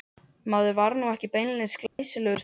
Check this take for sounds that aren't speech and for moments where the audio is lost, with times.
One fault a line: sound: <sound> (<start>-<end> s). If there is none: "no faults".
sound: dropout (1.9-2.0 s)